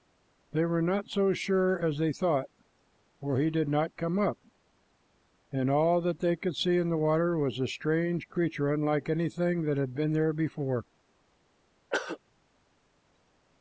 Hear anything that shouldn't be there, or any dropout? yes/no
yes